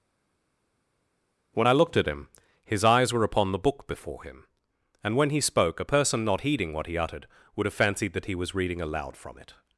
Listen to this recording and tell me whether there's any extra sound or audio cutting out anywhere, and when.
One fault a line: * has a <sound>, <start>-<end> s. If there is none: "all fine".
all fine